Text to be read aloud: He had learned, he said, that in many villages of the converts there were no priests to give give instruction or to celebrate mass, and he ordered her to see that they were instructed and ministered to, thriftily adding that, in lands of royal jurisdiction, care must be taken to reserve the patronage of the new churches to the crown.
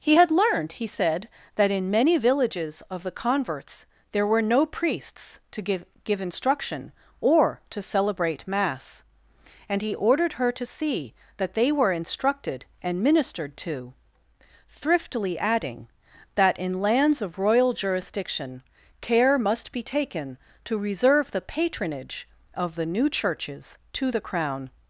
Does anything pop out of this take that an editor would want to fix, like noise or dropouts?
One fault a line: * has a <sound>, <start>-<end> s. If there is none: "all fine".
all fine